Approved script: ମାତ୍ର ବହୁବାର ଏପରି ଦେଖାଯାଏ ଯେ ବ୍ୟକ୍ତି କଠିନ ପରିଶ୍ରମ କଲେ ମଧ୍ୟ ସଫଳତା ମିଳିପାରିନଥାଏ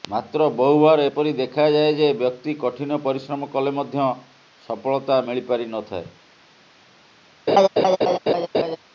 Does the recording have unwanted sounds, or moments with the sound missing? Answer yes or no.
yes